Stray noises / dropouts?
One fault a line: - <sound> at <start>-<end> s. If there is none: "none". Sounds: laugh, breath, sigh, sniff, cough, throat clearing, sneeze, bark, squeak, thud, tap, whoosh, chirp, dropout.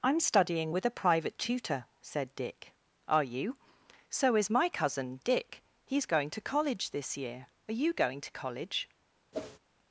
- whoosh at 9.3-9.6 s